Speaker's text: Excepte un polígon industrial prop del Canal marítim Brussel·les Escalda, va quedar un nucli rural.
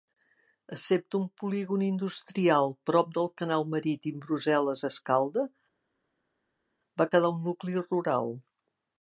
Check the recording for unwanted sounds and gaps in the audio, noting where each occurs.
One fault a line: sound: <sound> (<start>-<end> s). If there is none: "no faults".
no faults